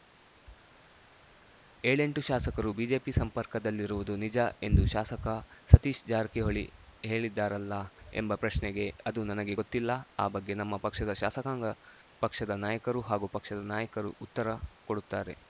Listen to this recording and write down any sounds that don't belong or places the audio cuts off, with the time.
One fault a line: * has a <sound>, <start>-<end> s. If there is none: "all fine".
all fine